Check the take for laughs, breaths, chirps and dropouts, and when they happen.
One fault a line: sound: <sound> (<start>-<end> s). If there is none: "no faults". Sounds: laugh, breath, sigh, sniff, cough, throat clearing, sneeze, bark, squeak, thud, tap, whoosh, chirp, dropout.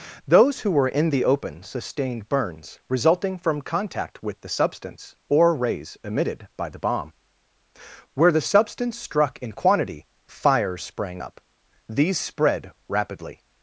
no faults